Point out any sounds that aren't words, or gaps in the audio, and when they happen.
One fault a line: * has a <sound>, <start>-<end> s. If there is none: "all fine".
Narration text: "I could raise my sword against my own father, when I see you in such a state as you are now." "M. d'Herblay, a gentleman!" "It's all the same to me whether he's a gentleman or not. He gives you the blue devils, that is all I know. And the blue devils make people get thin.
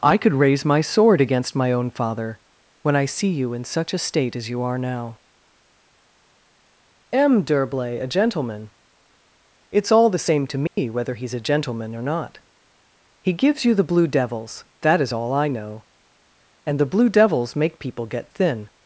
* has a dropout, 10.7-10.8 s